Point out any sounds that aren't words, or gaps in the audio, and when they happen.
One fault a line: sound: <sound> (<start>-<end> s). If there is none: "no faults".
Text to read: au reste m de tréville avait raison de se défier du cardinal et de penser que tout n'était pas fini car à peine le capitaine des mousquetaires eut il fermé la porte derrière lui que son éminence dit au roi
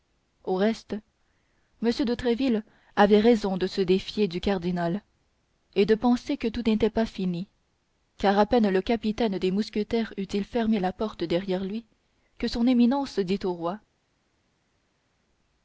no faults